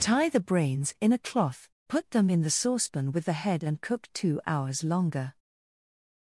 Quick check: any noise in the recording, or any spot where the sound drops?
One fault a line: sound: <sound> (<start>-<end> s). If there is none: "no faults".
no faults